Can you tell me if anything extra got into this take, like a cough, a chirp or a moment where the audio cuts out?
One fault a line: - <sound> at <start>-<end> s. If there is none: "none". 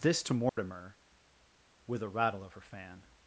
- dropout at 0.5-0.6 s